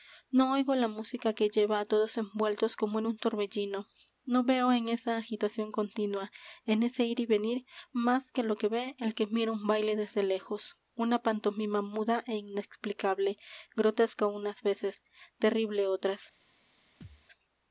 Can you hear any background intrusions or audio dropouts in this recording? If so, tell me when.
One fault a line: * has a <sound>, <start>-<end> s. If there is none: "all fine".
* has a thud, 17.0-17.3 s